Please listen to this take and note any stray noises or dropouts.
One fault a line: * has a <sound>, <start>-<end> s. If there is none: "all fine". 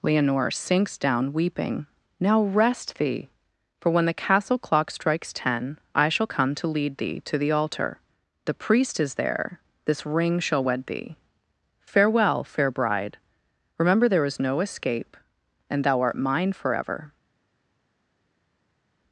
all fine